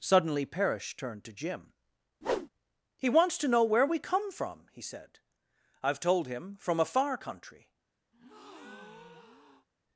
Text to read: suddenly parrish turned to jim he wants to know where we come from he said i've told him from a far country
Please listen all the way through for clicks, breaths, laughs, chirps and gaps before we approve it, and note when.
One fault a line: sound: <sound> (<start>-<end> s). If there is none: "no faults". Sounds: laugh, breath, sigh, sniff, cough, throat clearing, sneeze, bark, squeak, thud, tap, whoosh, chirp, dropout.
sound: whoosh (2.2-2.5 s)
sound: breath (8.1-9.7 s)